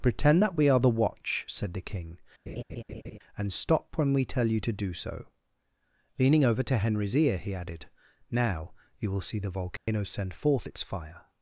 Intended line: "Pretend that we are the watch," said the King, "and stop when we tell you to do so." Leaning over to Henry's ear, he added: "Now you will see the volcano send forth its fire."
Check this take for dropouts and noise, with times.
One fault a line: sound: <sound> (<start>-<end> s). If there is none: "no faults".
sound: laugh (2.5-3.2 s)
sound: dropout (9.8-9.9 s)